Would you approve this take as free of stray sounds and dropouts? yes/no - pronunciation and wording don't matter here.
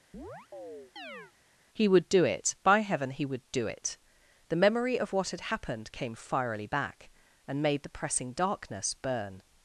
no